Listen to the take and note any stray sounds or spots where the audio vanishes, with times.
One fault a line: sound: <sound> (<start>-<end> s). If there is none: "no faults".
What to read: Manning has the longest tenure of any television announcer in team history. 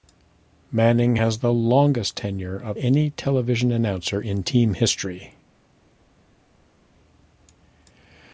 no faults